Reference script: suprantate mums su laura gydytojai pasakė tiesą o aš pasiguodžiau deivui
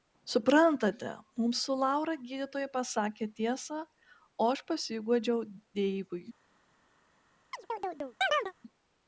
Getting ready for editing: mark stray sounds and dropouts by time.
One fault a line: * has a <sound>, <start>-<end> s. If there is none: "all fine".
* has a chirp, 7.5-8.5 s